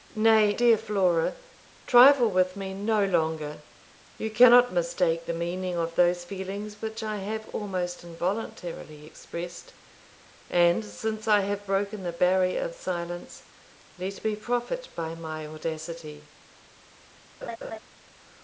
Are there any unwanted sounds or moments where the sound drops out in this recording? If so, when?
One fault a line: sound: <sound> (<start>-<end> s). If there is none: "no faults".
sound: laugh (17.4-17.8 s)